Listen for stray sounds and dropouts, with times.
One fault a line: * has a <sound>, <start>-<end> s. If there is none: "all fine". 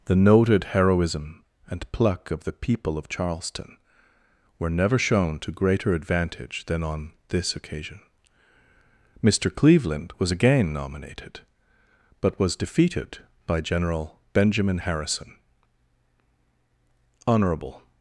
all fine